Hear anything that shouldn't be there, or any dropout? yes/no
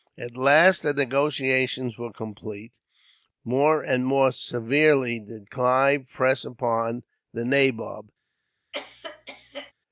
yes